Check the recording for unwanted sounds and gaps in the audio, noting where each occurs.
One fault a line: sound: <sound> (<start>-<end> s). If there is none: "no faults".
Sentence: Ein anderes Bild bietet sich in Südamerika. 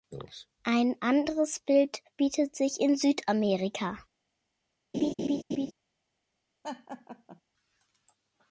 sound: laugh (4.9-5.7 s)
sound: laugh (6.6-7.4 s)